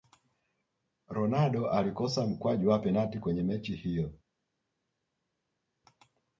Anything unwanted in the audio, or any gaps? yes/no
no